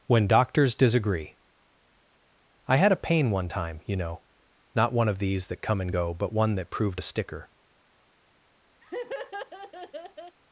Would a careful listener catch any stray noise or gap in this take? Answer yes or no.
yes